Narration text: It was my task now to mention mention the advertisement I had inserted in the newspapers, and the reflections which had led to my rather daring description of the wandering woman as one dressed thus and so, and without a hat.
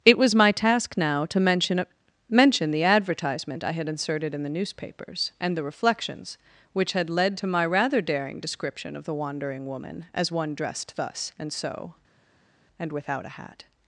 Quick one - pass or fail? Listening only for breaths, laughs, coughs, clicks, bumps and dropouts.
pass